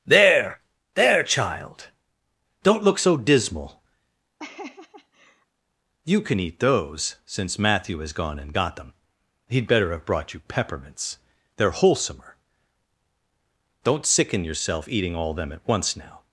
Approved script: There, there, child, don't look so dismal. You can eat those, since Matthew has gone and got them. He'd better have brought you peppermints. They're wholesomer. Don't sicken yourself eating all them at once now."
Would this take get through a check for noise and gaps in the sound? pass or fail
fail